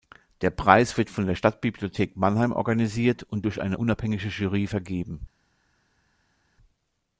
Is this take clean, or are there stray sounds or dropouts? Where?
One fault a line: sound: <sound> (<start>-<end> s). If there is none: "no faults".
no faults